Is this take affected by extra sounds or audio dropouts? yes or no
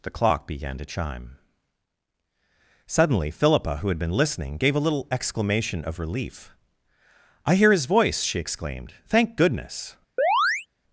yes